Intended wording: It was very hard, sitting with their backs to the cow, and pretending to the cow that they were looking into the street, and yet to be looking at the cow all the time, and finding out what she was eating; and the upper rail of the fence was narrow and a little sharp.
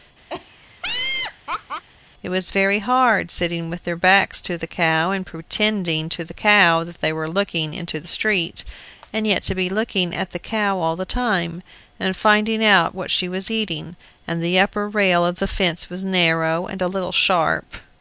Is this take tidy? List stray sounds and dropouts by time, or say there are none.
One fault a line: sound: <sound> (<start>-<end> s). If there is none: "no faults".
sound: laugh (0.3-1.8 s)